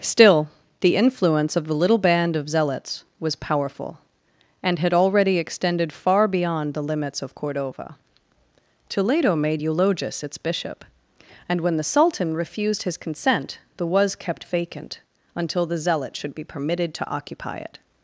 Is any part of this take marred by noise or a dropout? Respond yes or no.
no